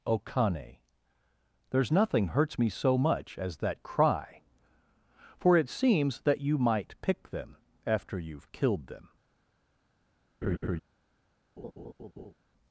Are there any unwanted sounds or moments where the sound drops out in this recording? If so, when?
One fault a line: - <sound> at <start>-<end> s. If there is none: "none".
- laugh at 10.4-10.8 s
- laugh at 11.6-12.3 s